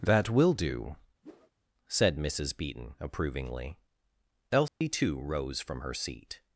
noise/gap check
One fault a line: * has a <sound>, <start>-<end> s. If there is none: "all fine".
* has a whoosh, 1.2-1.5 s
* has a dropout, 4.7-4.8 s